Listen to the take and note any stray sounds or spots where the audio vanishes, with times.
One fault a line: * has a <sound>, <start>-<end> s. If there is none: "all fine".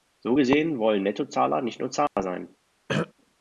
* has a dropout, 2.1-2.2 s
* has a throat clearing, 2.9-3.1 s